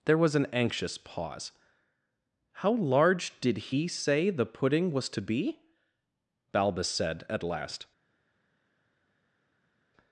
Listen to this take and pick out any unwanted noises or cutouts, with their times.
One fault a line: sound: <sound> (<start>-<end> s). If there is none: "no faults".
no faults